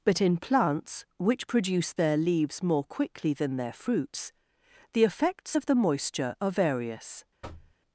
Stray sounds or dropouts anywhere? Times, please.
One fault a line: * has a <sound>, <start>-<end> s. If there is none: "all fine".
* has a thud, 7.4-7.8 s